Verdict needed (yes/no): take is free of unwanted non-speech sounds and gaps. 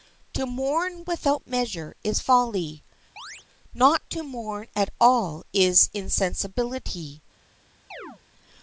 no